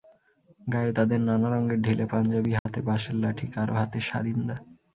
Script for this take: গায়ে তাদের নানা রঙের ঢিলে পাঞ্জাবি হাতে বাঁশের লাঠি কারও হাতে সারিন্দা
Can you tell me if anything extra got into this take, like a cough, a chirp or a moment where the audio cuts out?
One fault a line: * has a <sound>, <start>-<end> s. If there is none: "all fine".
* has a dropout, 2.6-2.7 s